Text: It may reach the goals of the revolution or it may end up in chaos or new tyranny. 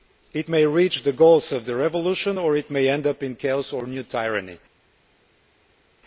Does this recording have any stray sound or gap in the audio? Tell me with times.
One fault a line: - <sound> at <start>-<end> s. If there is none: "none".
none